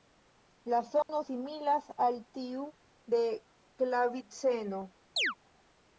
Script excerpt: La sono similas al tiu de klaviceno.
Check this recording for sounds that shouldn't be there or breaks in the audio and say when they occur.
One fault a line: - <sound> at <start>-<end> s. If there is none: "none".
- dropout at 1.0-1.1 s
- chirp at 5.2-5.4 s